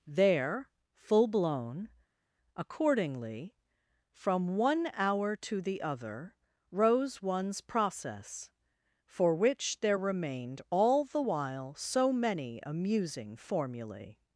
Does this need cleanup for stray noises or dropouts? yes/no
no